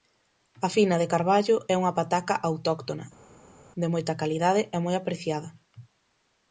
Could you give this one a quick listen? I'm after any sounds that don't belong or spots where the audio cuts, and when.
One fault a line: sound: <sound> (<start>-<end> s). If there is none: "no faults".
no faults